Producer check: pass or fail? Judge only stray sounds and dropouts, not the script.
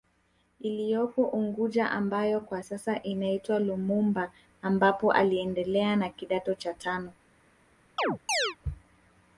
fail